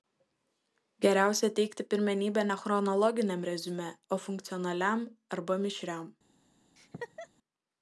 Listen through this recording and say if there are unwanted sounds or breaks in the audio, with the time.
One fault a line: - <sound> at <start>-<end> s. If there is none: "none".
- laugh at 6.8-7.3 s